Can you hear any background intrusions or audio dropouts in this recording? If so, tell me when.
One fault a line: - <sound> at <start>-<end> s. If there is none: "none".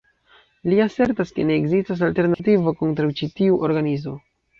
- dropout at 2.3-2.4 s